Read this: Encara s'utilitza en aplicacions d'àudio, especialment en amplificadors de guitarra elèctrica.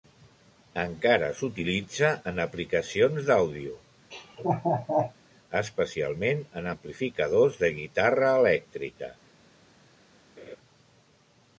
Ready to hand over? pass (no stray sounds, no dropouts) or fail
fail